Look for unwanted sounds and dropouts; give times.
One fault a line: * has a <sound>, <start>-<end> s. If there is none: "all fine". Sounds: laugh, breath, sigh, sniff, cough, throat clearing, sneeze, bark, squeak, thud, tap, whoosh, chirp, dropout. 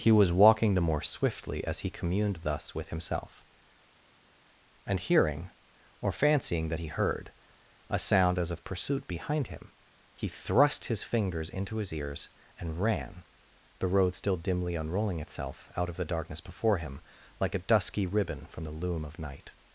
all fine